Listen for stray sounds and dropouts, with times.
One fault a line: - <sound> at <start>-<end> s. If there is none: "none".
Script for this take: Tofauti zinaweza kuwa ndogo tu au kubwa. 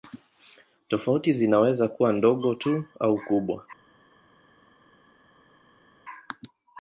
none